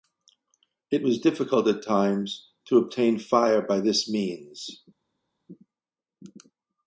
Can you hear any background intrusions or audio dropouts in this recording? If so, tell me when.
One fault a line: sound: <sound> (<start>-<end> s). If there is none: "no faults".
no faults